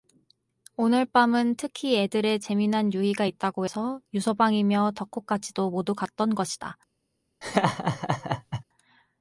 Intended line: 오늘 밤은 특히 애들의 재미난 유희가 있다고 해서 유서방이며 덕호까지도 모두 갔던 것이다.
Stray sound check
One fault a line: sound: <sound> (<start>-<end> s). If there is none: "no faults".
sound: laugh (7.4-8.6 s)